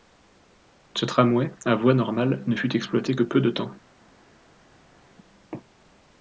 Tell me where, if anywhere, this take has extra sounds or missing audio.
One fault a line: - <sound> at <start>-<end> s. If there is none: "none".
none